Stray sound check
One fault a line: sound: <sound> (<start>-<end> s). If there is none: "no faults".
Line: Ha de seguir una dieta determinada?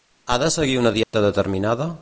sound: dropout (1.0-1.1 s)